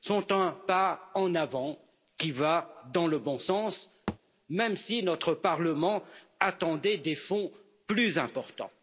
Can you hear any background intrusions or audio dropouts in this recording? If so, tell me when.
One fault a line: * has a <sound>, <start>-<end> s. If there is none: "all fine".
* has a thud, 4.1-4.2 s